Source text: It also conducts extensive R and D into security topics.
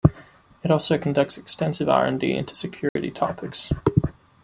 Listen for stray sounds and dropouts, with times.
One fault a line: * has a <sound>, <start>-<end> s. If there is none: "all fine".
* has a dropout, 2.9-3.0 s